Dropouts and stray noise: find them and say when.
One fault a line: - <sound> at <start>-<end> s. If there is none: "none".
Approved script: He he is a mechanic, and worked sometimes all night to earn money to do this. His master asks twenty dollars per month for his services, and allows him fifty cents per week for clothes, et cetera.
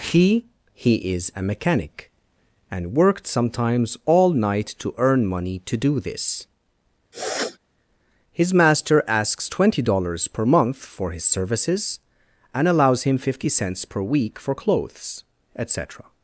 - sniff at 7.1-7.6 s